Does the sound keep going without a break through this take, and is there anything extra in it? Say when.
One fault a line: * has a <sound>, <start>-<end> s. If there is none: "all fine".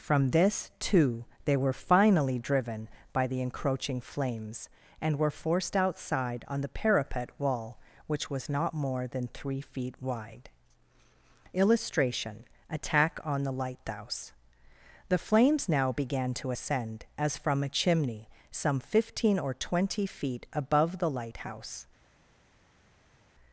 all fine